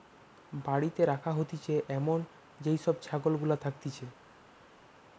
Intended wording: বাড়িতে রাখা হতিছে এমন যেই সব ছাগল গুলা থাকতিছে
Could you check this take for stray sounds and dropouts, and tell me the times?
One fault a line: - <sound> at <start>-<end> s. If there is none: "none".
none